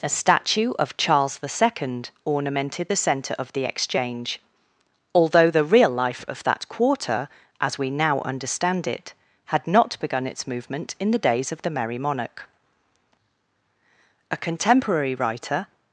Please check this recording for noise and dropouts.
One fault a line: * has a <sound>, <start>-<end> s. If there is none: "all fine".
all fine